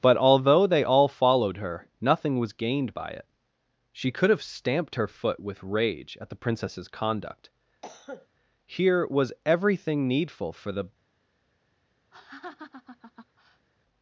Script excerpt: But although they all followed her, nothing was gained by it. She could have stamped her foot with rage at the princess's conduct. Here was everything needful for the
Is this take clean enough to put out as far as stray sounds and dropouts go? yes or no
no